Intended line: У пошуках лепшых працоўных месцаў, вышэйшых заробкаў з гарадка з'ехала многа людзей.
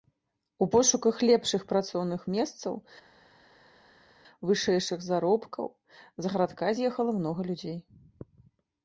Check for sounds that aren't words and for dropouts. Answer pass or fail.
pass